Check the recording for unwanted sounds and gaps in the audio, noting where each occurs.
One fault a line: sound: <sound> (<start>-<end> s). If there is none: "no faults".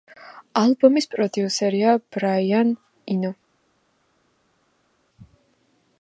no faults